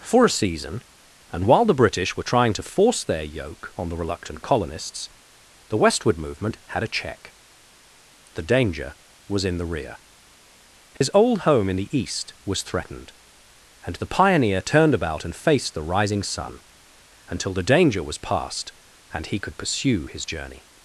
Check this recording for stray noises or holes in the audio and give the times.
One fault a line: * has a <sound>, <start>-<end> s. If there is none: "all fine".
* has a dropout, 11.0-11.0 s